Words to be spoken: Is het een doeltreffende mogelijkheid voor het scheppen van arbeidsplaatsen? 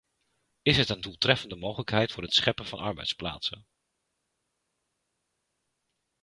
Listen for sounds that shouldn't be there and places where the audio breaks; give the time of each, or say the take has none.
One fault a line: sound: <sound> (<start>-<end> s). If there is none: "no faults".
no faults